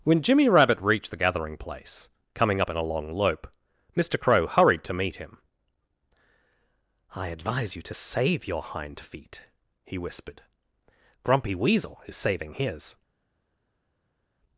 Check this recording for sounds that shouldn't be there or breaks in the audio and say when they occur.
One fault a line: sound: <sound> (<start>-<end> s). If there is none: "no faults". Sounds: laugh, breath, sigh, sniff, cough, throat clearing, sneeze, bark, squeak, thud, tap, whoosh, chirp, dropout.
no faults